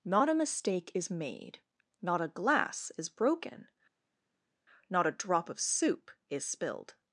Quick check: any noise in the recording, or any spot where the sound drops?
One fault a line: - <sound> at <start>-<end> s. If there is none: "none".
none